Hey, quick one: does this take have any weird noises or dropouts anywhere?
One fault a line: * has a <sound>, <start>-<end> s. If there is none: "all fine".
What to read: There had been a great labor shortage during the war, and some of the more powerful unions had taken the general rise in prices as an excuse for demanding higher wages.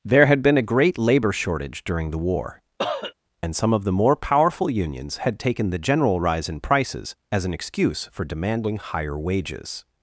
* has a cough, 2.8-3.1 s